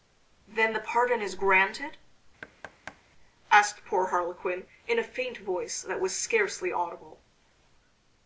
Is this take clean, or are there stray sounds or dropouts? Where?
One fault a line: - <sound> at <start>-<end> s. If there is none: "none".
- thud at 2.4-3.0 s